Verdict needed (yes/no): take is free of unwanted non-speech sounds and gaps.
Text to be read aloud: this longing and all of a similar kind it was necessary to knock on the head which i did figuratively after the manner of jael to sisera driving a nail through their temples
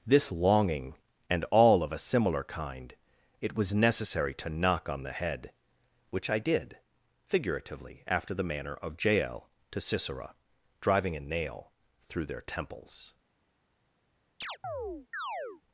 no